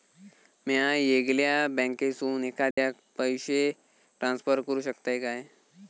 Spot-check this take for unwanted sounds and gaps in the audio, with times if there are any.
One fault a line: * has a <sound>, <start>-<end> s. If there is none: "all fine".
* has a dropout, 2.7-2.8 s